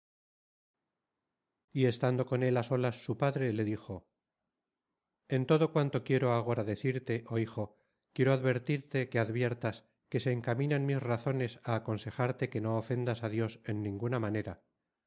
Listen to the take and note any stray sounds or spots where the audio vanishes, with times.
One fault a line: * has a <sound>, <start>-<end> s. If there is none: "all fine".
all fine